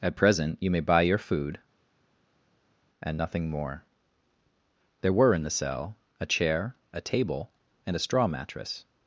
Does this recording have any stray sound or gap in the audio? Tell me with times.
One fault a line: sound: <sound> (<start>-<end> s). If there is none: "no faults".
no faults